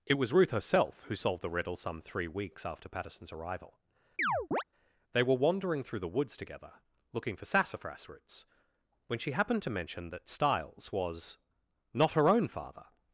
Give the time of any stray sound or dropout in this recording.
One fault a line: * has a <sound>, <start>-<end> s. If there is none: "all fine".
* has a chirp, 4.2-4.6 s